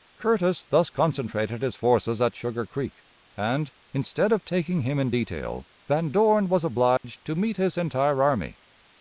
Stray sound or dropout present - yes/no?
yes